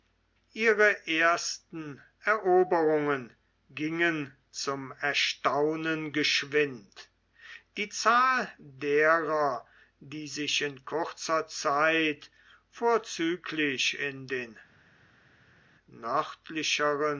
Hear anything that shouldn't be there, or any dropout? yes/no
no